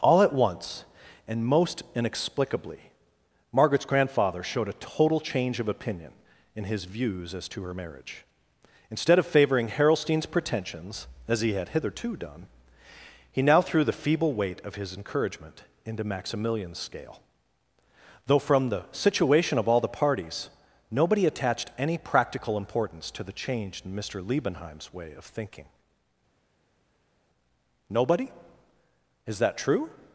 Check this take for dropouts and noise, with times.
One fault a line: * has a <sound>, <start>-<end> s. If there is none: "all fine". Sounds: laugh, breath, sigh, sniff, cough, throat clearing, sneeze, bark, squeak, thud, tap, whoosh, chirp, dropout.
all fine